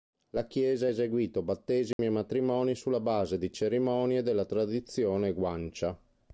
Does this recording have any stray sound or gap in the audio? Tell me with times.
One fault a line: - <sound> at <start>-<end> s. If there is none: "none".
- dropout at 1.9-2.0 s